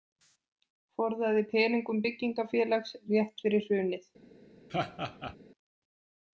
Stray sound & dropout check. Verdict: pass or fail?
fail